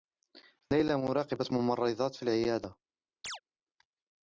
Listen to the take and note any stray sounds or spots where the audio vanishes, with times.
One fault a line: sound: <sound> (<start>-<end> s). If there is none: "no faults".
sound: chirp (3.2-3.4 s)